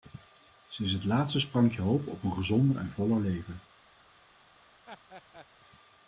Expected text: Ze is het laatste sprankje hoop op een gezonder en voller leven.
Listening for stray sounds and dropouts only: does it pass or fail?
fail